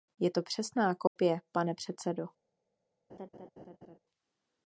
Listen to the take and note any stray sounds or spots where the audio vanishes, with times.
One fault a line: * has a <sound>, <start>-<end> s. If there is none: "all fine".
* has a dropout, 1.1-1.2 s
* has a laugh, 3.1-4.0 s